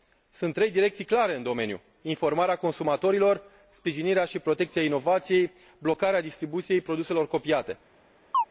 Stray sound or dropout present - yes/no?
yes